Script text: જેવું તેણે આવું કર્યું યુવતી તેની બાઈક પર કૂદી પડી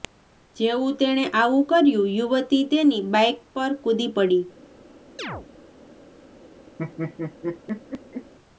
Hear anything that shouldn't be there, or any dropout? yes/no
yes